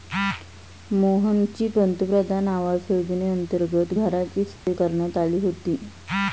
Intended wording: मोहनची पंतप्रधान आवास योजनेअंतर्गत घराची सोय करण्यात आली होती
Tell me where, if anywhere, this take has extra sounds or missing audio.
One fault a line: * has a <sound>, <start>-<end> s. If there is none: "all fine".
* has a dropout, 4.6-4.7 s